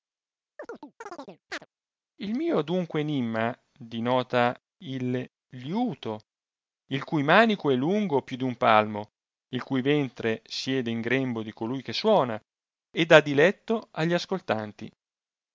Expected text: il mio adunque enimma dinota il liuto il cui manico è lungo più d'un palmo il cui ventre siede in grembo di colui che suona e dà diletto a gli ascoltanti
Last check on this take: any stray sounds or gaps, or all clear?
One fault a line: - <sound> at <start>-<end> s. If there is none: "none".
- chirp at 0.6-1.7 s